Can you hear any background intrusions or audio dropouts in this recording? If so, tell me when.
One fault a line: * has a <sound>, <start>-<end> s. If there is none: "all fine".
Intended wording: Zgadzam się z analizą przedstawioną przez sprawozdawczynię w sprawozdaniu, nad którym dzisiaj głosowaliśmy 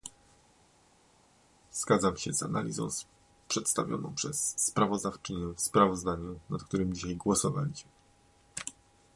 all fine